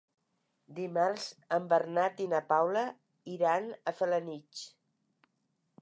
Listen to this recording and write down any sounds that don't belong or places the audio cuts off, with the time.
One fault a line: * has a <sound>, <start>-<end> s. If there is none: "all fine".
all fine